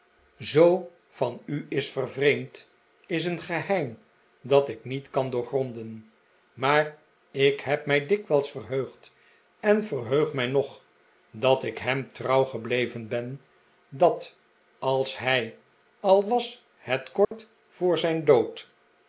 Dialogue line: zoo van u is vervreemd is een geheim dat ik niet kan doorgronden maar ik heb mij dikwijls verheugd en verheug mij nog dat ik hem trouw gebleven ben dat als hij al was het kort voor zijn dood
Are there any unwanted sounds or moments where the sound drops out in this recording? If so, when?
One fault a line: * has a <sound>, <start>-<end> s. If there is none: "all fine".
* has a dropout, 17.2-17.3 s